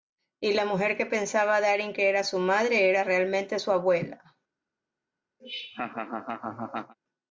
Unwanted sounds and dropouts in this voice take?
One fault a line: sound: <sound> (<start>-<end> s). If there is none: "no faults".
sound: laugh (5.4-6.9 s)